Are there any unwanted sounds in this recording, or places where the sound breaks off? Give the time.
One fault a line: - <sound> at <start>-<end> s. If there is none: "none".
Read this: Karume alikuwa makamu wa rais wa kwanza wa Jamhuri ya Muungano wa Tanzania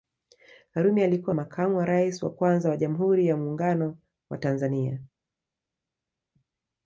none